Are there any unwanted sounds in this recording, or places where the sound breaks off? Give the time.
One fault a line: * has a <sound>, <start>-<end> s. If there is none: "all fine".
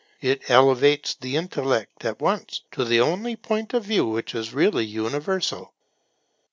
all fine